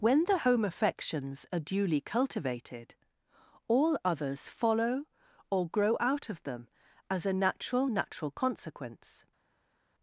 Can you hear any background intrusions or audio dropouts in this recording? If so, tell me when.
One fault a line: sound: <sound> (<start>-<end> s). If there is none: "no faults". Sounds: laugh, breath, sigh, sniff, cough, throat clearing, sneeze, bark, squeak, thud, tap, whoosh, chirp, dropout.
no faults